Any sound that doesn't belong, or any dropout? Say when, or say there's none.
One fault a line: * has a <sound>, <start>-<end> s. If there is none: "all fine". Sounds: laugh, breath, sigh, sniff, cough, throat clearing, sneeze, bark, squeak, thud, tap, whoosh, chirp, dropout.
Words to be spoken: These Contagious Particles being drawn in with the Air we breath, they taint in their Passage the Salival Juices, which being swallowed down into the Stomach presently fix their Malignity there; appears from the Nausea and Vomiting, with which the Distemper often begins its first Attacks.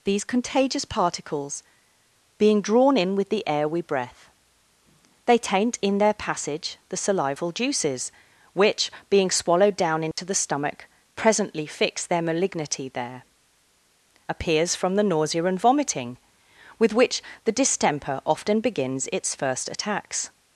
* has a dropout, 10.1-10.2 s